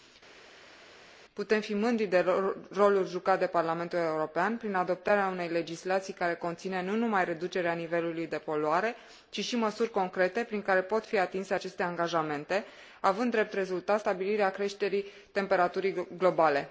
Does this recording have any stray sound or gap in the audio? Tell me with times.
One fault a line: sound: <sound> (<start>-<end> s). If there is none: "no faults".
no faults